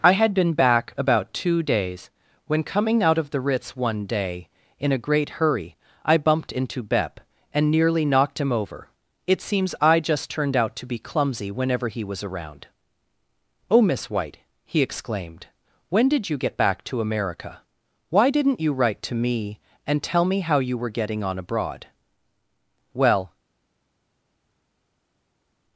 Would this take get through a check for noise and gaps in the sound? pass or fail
pass